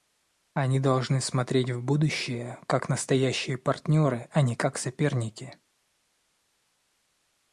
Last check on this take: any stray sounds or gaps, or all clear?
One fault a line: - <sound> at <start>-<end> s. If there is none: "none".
none